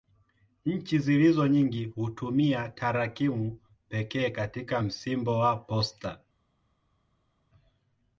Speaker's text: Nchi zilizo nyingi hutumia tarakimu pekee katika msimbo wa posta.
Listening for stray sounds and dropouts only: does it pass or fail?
pass